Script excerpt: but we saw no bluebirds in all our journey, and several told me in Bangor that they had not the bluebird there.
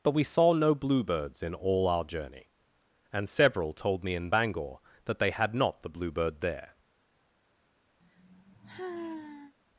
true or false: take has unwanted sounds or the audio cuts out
true